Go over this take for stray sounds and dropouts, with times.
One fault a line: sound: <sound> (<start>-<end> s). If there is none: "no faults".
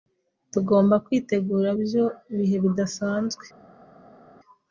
no faults